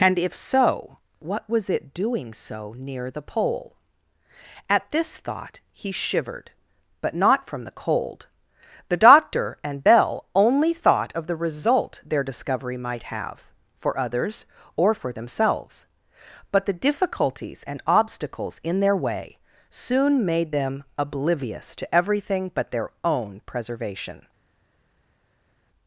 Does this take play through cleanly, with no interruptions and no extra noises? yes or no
yes